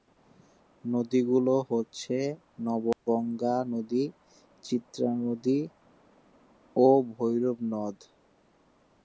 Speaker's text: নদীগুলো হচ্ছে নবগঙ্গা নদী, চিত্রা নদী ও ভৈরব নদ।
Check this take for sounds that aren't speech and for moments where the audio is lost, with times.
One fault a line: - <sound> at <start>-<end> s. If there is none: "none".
- dropout at 2.9-3.1 s